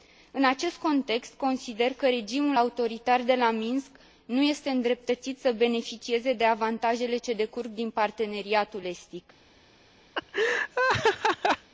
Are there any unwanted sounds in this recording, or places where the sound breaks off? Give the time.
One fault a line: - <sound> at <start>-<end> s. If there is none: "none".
- laugh at 10.1-11.7 s